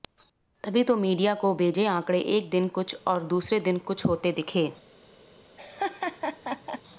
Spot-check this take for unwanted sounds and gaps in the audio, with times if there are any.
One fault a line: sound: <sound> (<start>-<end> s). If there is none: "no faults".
sound: laugh (5.6-6.8 s)